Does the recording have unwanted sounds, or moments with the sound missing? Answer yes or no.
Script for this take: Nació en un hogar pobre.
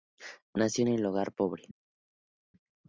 no